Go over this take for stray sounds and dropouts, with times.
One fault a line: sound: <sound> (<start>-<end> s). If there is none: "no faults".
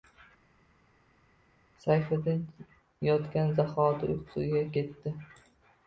no faults